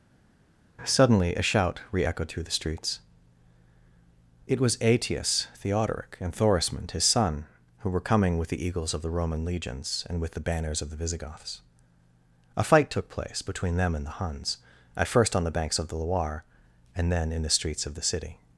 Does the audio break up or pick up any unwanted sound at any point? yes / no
no